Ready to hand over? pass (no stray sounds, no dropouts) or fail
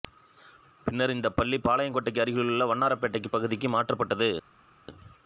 pass